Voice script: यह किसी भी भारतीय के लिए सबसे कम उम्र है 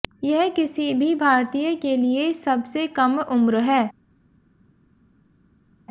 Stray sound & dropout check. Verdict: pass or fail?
pass